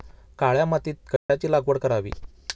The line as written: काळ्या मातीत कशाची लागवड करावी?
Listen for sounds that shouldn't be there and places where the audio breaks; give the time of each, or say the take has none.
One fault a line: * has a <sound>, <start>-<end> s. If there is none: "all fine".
* has a dropout, 1.2-1.3 s